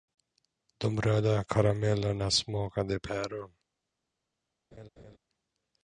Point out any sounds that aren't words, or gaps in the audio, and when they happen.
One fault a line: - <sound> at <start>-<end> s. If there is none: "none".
- laugh at 4.7-5.2 s